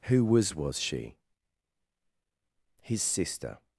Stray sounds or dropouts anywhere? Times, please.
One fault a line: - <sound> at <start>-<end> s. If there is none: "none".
none